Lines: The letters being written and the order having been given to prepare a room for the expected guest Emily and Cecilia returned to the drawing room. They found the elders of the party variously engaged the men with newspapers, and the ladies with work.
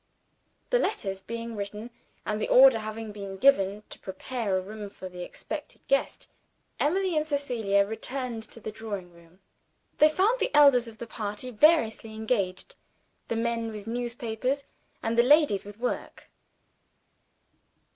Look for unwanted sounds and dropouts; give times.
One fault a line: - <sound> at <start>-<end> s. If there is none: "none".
none